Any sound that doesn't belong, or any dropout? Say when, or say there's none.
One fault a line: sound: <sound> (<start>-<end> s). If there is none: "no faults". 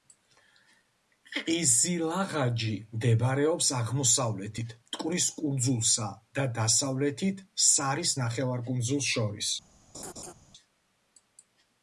sound: laugh (9.9-10.3 s)